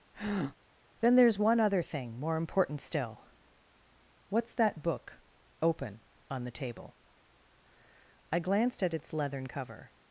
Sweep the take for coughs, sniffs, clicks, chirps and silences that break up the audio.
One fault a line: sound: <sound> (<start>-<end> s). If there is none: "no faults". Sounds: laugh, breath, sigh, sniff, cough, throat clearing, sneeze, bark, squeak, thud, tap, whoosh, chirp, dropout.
sound: breath (0.1-0.6 s)